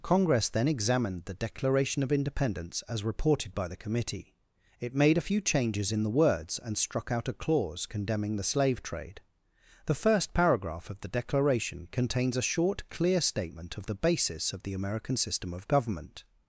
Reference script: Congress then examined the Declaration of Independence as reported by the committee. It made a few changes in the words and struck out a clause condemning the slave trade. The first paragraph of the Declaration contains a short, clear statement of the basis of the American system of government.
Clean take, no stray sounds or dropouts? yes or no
yes